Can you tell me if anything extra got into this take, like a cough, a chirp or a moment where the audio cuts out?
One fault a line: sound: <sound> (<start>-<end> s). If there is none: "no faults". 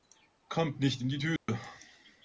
sound: dropout (1.4-1.5 s)